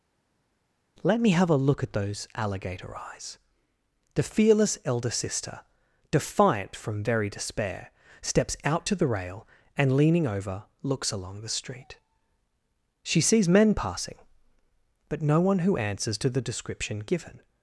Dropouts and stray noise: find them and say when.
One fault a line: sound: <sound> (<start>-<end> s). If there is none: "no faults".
no faults